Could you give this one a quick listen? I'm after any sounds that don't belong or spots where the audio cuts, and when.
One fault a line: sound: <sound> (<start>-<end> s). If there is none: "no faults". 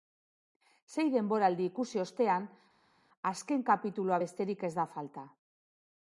no faults